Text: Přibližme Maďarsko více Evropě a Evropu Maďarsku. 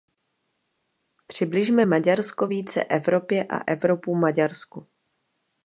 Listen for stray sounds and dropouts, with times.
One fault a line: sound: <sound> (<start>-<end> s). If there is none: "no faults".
no faults